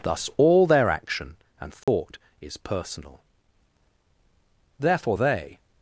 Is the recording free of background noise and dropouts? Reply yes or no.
no